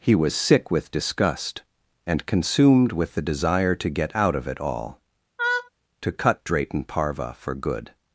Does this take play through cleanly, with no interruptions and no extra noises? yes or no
no